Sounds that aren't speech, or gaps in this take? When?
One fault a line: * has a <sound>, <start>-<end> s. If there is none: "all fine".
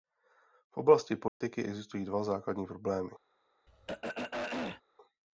* has a dropout, 1.3-1.4 s
* has a throat clearing, 3.7-4.8 s